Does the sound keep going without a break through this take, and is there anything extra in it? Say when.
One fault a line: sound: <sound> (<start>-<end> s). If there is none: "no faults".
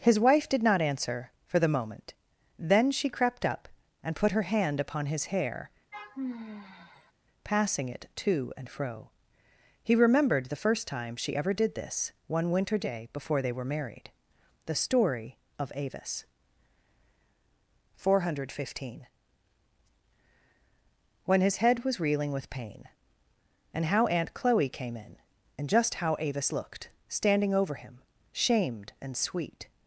sound: sigh (5.9-7.1 s)